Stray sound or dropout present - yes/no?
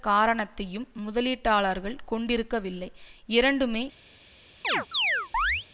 yes